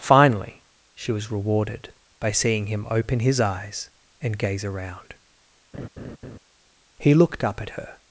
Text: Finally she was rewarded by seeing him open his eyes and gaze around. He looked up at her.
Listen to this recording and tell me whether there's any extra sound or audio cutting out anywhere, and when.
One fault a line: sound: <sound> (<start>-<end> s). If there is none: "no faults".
sound: laugh (5.7-6.4 s)